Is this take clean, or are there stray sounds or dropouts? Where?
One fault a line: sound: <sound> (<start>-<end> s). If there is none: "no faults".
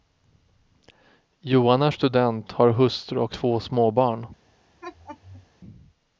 sound: laugh (4.8-5.5 s)